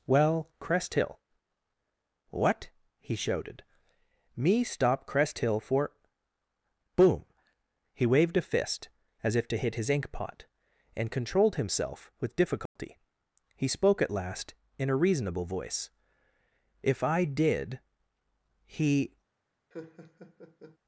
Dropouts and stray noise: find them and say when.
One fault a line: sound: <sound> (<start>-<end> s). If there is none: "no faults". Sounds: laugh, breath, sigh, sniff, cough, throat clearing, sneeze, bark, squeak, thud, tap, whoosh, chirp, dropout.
sound: dropout (12.7-12.8 s)
sound: laugh (19.7-20.8 s)